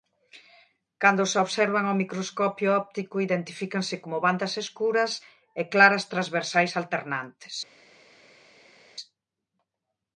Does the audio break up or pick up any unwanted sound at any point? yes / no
no